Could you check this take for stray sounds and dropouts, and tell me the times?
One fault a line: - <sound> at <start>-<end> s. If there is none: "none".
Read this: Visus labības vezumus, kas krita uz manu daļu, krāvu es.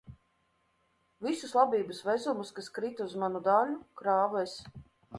none